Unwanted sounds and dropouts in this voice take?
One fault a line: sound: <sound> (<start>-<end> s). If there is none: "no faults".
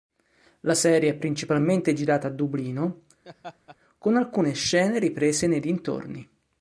sound: laugh (3.2-3.8 s)